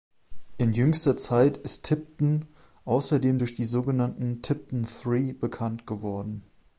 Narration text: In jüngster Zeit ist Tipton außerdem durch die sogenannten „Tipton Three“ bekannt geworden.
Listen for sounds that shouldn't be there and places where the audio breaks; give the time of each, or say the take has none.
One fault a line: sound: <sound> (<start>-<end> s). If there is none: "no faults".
no faults